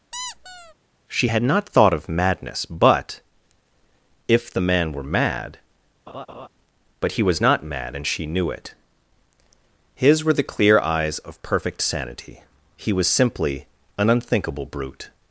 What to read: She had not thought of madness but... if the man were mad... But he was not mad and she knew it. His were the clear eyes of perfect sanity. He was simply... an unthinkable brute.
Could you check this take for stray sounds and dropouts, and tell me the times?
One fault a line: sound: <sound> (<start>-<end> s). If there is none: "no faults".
sound: squeak (0.1-0.7 s)
sound: laugh (6.1-6.5 s)